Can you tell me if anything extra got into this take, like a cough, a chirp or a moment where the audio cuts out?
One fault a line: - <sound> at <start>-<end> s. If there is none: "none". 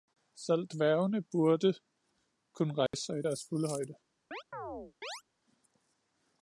- dropout at 2.9-2.9 s
- chirp at 4.3-5.2 s